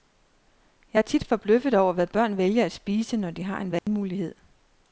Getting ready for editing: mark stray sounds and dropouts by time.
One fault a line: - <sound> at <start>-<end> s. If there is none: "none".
- dropout at 3.8-3.9 s